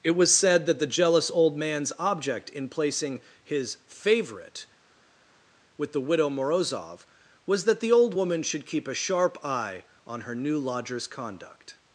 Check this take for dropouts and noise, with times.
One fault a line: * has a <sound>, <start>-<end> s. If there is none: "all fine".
all fine